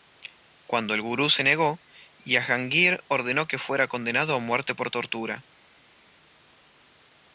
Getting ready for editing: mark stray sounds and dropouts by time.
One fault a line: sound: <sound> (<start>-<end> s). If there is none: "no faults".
no faults